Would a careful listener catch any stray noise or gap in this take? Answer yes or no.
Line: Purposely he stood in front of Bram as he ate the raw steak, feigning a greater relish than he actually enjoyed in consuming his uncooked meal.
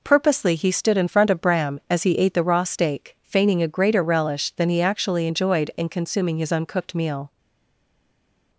no